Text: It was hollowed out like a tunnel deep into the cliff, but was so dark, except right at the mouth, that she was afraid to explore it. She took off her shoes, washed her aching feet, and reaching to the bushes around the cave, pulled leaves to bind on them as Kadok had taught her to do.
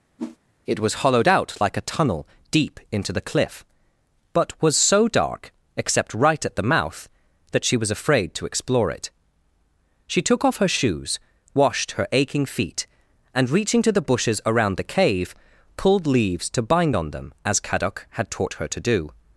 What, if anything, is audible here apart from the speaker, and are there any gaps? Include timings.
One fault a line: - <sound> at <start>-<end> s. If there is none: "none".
- whoosh at 0.2-0.4 s